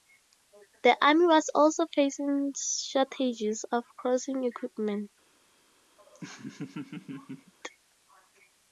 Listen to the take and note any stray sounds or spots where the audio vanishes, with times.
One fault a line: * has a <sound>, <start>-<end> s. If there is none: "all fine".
* has a laugh, 6.0-7.5 s